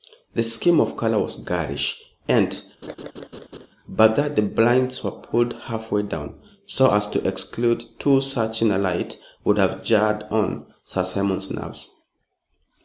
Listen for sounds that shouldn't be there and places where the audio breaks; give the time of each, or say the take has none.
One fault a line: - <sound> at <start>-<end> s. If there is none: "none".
- laugh at 2.8-3.7 s